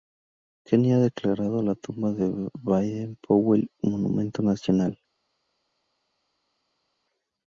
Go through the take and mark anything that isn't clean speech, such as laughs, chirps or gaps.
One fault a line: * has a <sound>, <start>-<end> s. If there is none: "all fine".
all fine